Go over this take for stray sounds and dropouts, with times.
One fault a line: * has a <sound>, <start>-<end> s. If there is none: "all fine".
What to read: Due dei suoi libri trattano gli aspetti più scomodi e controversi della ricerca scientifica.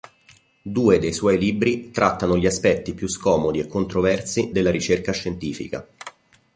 all fine